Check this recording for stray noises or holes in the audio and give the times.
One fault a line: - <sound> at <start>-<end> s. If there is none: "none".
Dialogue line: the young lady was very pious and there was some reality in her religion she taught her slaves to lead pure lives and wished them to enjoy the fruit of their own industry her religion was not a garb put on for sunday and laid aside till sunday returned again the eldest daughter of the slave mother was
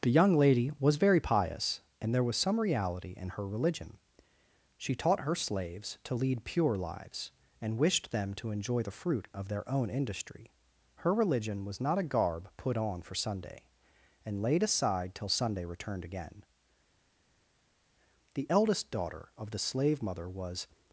none